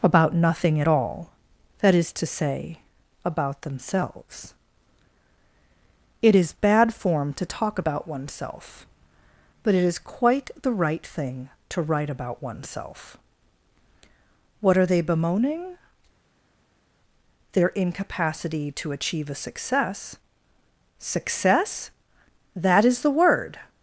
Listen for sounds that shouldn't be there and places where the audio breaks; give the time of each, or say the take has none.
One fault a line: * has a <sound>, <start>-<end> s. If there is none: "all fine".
all fine